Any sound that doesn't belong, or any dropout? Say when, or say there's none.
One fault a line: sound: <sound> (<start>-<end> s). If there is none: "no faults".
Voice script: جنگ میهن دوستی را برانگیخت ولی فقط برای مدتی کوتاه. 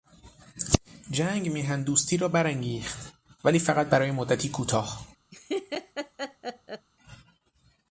sound: laugh (5.3-6.9 s)